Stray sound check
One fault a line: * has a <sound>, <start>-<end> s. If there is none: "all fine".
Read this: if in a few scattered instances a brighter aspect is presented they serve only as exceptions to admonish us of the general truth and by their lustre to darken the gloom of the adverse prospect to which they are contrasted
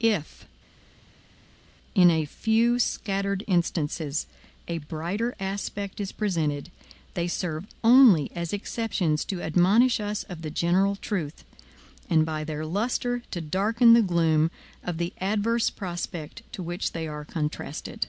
all fine